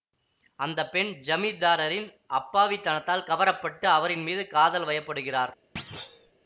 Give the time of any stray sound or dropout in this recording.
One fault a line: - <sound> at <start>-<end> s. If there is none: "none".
- thud at 5.8-6.3 s